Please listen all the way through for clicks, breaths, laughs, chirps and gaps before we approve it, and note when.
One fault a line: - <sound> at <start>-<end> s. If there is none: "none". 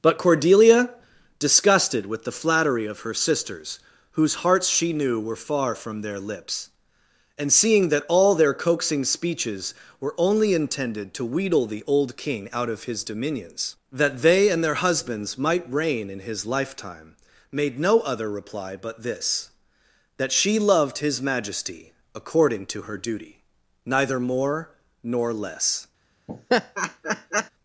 - laugh at 26.3-27.5 s